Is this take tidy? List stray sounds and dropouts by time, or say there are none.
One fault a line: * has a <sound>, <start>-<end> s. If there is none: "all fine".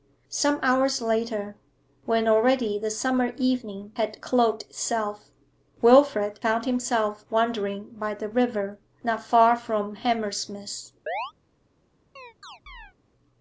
* has a chirp, 11.1-11.3 s
* has a chirp, 12.2-12.9 s